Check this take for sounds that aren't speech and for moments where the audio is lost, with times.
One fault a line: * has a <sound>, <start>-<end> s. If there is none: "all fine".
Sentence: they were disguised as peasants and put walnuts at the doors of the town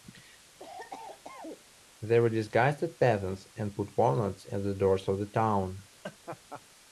* has a cough, 0.6-1.6 s
* has a laugh, 6.0-6.6 s